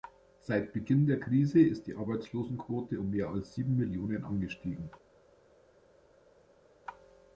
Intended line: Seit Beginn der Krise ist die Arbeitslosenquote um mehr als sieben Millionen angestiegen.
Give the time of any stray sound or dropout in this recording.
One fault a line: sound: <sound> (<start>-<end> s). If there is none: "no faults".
no faults